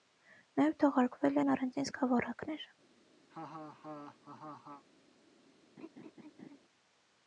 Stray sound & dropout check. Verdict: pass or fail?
fail